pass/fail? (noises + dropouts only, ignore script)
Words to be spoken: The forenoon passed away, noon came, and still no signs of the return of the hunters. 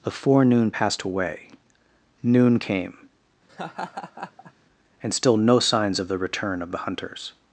fail